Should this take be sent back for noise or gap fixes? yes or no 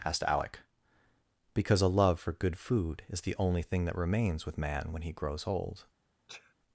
yes